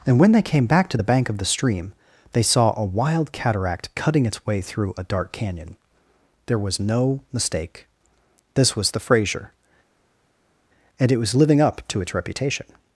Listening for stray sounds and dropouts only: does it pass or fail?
pass